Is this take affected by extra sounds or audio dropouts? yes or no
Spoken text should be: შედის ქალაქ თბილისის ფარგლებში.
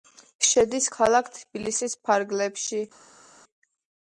no